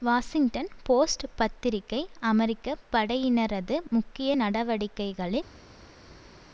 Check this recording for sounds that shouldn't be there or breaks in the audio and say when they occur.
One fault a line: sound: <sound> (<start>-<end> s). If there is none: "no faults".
no faults